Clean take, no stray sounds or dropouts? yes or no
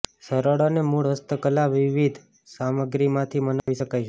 no